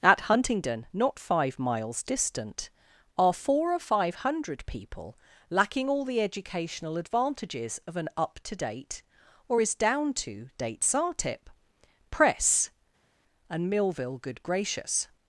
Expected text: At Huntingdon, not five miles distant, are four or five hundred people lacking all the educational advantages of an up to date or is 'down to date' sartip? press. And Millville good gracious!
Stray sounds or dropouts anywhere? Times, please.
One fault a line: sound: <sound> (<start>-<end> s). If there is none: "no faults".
no faults